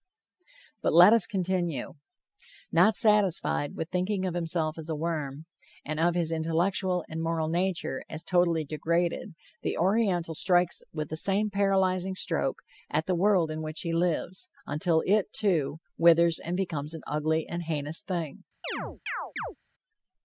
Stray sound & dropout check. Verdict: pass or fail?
fail